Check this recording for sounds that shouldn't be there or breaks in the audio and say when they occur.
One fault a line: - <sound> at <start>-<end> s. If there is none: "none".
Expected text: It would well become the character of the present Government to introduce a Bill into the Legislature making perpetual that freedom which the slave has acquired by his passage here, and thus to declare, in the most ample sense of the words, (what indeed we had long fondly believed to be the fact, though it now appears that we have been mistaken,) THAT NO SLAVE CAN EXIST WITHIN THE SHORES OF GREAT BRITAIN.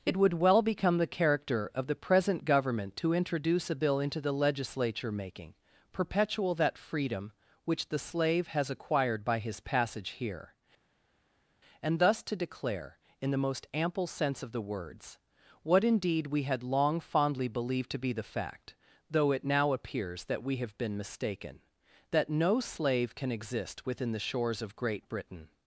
none